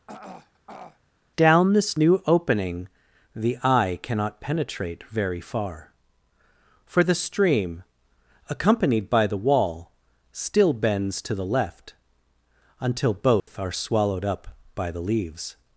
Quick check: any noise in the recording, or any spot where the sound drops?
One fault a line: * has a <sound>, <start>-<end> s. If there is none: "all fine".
* has a throat clearing, 0.1-1.0 s
* has a dropout, 13.4-13.5 s